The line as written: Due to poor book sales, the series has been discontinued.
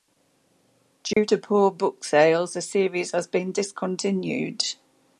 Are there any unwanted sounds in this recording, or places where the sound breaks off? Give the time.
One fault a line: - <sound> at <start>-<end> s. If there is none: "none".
- dropout at 1.1-1.2 s